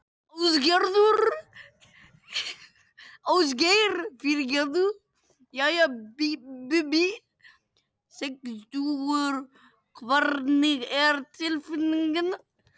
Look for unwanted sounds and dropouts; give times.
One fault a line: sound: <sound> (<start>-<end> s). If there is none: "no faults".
no faults